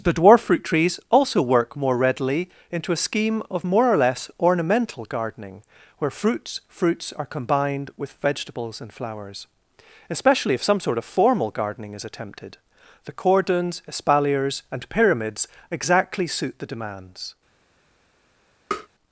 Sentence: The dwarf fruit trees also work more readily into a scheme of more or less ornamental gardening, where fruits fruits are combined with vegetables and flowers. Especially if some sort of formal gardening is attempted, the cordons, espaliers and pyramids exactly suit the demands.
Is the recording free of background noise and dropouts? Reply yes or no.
no